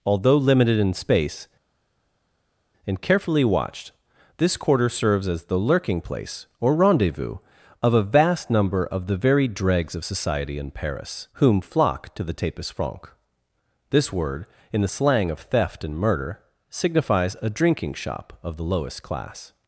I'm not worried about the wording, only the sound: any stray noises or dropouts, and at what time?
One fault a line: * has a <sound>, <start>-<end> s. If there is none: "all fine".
all fine